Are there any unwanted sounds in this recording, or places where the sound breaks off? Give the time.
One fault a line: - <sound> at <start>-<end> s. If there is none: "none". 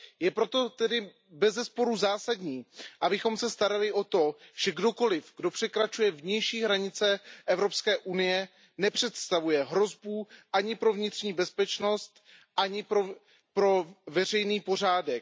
none